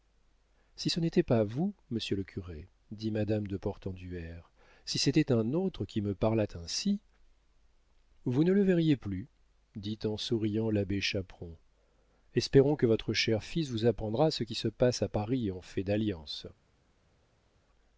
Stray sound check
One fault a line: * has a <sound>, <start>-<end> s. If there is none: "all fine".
all fine